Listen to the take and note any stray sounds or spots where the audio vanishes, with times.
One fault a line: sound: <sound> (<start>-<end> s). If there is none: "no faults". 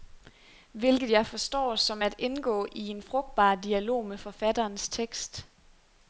no faults